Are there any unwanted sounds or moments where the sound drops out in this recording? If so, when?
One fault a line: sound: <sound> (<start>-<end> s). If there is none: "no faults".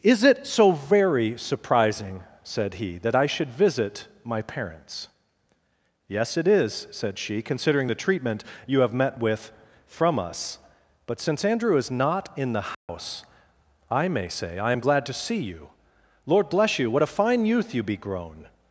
sound: dropout (12.7-12.9 s)